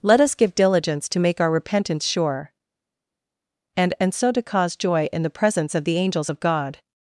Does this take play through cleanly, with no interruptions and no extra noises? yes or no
yes